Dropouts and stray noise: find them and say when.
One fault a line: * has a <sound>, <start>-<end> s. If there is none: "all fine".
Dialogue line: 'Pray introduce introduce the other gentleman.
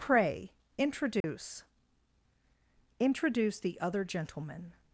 * has a dropout, 1.2-1.2 s